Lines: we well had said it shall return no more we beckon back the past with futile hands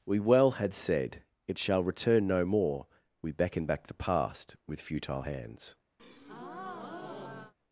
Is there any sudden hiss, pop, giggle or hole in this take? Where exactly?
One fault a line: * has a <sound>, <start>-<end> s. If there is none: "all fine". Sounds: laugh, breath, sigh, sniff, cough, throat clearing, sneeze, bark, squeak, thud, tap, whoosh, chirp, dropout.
* has a breath, 6.0-7.5 s